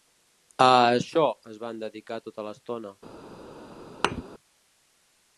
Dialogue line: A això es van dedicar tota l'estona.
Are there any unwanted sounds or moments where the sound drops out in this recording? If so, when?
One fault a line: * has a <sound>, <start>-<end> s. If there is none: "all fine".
* has a thud, 4.0-4.2 s